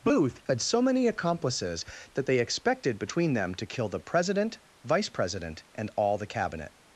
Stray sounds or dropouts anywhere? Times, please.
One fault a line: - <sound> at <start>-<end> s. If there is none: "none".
none